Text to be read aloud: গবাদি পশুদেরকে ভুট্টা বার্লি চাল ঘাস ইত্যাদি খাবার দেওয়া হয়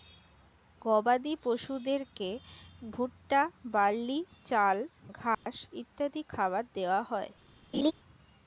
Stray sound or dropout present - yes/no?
yes